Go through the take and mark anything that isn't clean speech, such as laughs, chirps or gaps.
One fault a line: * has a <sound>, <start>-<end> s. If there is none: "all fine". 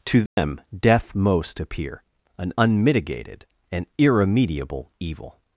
* has a dropout, 0.3-0.4 s